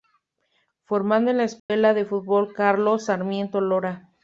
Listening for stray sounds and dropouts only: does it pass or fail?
fail